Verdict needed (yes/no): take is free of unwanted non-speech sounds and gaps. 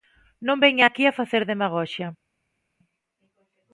yes